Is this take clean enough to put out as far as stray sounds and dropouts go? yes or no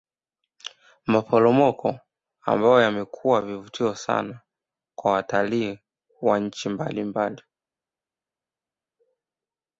yes